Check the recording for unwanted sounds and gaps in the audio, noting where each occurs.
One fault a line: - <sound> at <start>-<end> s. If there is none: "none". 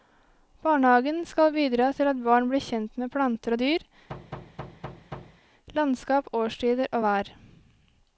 - thud at 4.1-5.4 s